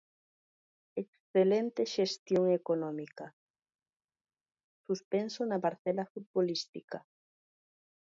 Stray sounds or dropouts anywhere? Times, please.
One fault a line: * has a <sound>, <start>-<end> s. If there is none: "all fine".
all fine